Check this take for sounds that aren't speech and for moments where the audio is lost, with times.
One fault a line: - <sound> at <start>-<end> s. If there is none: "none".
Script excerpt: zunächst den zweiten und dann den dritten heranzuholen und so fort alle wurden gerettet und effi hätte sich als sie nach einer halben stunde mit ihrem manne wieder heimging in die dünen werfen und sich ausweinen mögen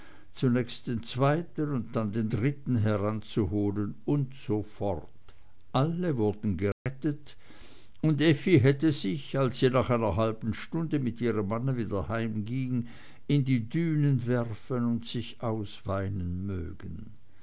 - dropout at 6.7-6.9 s